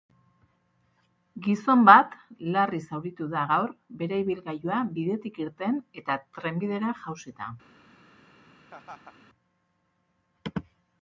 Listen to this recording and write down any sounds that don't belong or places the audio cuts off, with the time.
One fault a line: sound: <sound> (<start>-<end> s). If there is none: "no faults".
sound: laugh (8.7-9.2 s)